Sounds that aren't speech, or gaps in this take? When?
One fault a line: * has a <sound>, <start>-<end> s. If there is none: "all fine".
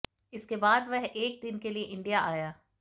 all fine